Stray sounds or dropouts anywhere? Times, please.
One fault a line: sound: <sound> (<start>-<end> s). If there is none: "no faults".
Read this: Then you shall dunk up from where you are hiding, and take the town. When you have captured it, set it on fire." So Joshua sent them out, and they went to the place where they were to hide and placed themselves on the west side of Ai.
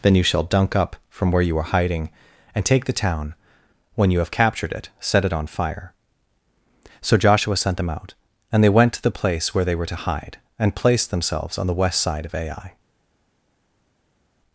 no faults